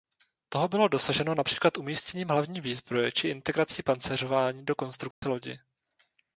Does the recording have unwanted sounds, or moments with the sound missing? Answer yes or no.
yes